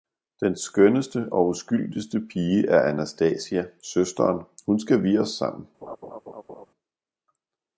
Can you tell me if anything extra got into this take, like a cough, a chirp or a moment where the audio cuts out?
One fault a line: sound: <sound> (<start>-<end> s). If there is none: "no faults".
sound: laugh (5.8-6.7 s)